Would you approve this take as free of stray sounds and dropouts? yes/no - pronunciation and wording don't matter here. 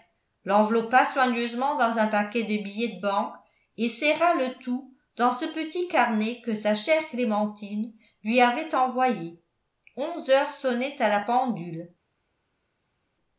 yes